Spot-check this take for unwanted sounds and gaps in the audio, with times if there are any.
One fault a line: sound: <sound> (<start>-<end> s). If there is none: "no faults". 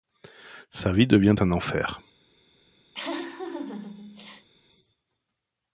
sound: laugh (2.9-4.5 s)